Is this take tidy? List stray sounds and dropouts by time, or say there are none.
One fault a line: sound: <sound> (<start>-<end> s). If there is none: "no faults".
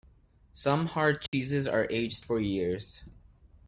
sound: dropout (1.3-1.3 s)